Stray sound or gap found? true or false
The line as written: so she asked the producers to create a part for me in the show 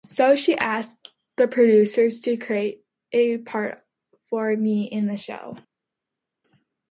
false